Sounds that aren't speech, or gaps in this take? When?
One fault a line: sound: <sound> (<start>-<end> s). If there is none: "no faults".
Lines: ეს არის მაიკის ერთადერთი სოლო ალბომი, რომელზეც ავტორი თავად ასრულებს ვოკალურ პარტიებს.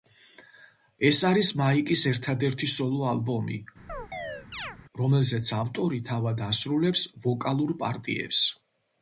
sound: chirp (3.9-4.8 s)